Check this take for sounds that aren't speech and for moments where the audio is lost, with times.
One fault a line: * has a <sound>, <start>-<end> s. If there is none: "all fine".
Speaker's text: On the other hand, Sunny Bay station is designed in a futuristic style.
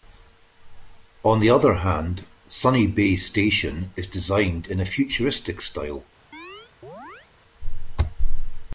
* has a chirp, 6.3-7.3 s